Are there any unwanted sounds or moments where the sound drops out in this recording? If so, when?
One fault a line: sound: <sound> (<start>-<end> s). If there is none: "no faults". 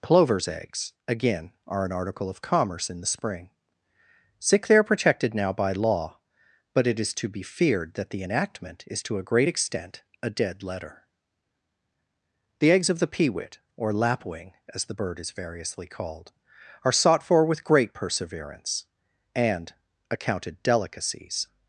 no faults